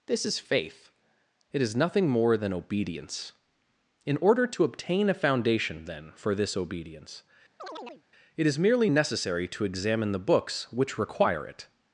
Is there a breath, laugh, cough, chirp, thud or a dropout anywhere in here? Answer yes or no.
yes